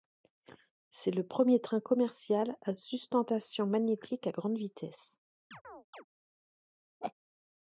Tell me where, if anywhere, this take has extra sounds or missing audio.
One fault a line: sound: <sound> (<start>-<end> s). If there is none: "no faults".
sound: chirp (5.5-6.0 s)
sound: laugh (7.0-7.1 s)